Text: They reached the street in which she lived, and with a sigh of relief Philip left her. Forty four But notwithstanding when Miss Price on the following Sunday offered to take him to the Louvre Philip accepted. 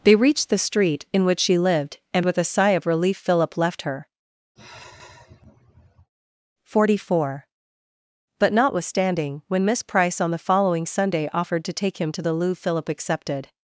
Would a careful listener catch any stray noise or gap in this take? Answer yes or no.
yes